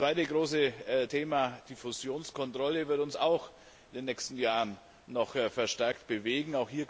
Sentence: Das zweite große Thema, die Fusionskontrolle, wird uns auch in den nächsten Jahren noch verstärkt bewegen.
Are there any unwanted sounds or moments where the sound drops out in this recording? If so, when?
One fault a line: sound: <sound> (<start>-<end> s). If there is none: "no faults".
no faults